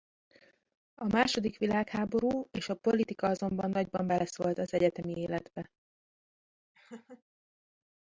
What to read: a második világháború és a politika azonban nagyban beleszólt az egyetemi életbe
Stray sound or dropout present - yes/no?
yes